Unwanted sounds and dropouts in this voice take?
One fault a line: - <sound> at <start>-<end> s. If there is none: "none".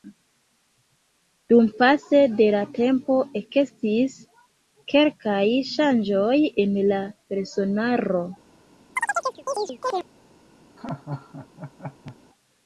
- chirp at 9.0-10.1 s
- laugh at 10.8-12.2 s